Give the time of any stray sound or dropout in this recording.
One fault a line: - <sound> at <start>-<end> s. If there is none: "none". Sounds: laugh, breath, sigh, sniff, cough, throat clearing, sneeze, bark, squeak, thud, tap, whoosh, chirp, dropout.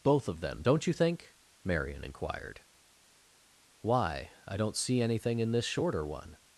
none